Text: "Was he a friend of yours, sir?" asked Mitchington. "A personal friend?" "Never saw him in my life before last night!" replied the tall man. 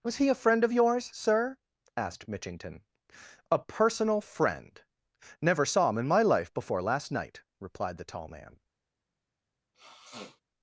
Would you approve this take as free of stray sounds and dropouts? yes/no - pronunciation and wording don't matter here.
no